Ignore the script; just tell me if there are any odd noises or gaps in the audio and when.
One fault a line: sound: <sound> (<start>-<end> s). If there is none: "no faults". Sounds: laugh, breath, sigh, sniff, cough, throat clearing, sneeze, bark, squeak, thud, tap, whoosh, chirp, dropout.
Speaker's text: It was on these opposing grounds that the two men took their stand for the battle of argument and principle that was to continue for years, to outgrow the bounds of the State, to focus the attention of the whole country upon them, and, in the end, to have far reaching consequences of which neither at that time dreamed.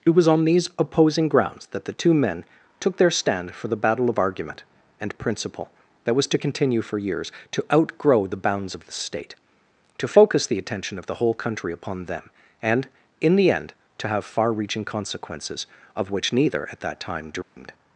sound: dropout (17.4-17.6 s)